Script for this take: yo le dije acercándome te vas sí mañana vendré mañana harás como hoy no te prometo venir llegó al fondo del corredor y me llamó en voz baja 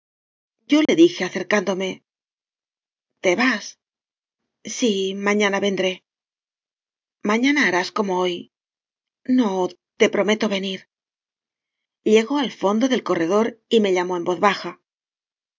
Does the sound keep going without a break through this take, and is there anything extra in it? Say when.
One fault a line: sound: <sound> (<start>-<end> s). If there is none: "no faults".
sound: dropout (0.9-0.9 s)